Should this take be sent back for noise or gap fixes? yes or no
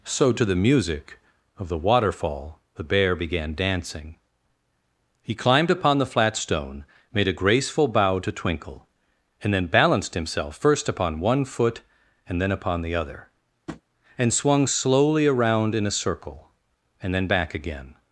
yes